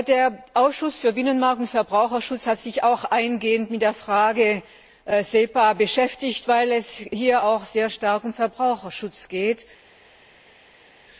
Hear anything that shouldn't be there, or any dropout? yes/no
no